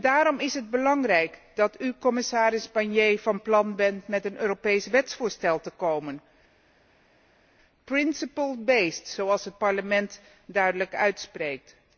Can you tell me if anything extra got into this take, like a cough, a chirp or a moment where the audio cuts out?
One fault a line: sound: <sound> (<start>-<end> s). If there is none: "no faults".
no faults